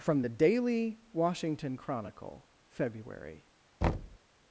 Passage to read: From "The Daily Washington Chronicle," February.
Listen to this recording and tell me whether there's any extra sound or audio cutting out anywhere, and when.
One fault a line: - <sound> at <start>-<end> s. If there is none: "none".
- thud at 3.8-4.2 s